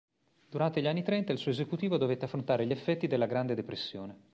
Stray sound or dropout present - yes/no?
no